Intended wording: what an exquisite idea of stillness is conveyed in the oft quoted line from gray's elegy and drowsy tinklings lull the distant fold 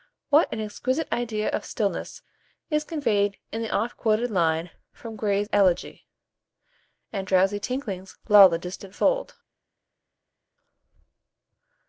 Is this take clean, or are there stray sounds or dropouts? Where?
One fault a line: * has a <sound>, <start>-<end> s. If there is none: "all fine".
all fine